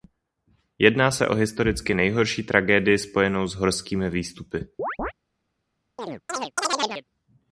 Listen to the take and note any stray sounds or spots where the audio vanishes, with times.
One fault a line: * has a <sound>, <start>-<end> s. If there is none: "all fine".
* has a chirp, 4.8-5.1 s
* has a chirp, 6.0-7.1 s